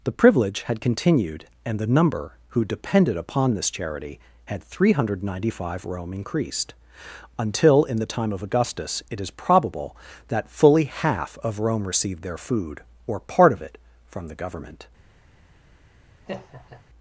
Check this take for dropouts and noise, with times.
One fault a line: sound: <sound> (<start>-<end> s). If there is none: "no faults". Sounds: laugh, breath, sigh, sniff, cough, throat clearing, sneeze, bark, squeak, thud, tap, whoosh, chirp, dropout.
sound: laugh (16.3-16.8 s)